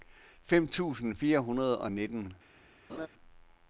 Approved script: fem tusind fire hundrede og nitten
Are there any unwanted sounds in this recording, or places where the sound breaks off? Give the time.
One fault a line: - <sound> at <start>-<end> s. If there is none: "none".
- laugh at 2.9-3.1 s